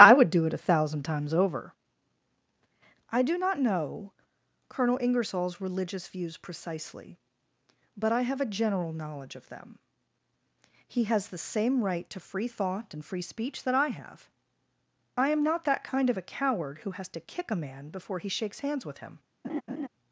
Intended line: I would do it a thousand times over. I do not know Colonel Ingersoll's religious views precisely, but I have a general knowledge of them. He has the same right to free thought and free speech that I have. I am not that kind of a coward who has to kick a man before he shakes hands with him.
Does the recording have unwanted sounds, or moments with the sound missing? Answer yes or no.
yes